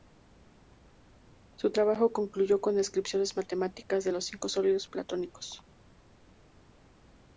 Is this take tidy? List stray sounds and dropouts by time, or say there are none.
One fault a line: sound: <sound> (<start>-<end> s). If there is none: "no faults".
no faults